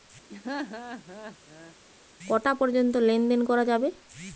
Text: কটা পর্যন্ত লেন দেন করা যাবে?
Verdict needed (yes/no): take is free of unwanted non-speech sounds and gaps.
no